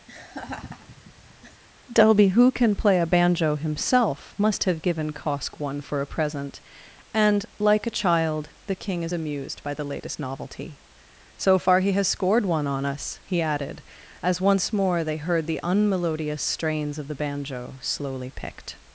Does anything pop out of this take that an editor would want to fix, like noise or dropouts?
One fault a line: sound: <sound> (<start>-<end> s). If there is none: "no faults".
sound: laugh (0.1-1.6 s)